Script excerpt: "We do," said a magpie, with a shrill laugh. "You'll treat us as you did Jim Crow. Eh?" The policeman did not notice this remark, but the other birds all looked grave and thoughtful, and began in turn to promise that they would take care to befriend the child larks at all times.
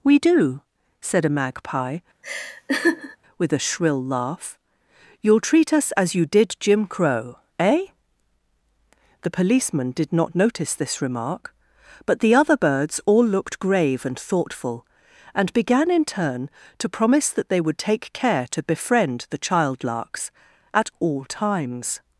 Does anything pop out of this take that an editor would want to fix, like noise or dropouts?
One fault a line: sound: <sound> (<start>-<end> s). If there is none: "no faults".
sound: laugh (2.2-3.2 s)